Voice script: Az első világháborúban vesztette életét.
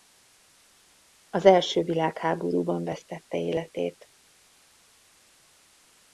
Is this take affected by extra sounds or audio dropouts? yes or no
no